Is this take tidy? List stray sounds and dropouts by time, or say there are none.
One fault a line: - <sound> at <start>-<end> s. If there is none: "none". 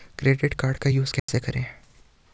- dropout at 1.2-1.3 s